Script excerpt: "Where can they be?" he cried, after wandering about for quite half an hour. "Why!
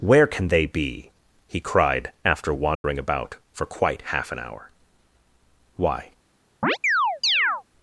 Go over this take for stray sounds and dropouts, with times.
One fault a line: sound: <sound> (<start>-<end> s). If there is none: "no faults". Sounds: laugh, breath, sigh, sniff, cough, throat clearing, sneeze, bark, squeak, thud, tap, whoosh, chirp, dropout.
sound: dropout (2.7-2.8 s)
sound: chirp (6.6-7.6 s)